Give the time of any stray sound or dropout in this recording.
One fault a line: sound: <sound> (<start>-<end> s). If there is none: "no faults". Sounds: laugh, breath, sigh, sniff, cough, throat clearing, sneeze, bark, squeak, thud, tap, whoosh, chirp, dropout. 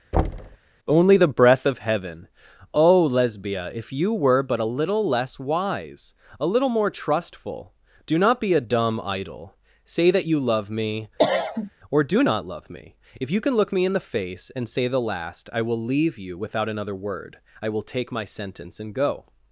sound: thud (0.1-0.6 s)
sound: cough (11.2-11.7 s)